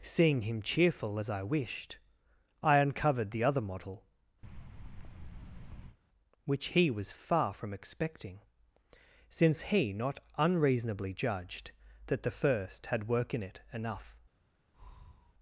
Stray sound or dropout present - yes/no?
yes